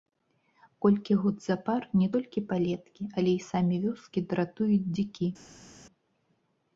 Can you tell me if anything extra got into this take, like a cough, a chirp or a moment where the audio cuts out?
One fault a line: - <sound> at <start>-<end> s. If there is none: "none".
none